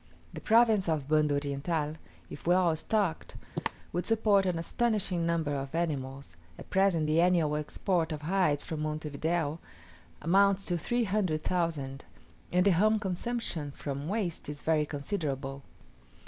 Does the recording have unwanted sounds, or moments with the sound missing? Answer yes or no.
yes